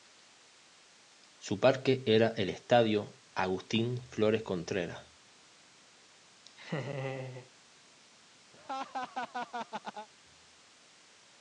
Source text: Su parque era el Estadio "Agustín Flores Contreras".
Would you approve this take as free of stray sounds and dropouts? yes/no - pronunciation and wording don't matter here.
no